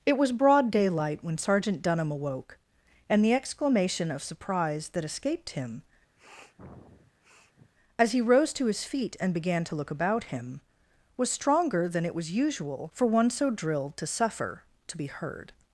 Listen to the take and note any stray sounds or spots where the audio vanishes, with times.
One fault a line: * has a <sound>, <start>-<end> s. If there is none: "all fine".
* has a sniff, 6.2-7.7 s